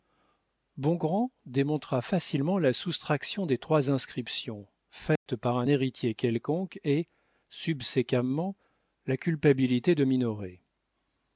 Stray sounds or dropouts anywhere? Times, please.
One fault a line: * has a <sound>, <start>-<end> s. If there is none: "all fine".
* has a dropout, 5.2-5.3 s